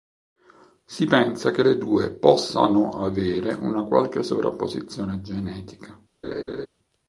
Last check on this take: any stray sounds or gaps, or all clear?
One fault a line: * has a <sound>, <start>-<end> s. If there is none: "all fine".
* has a laugh, 6.2-6.7 s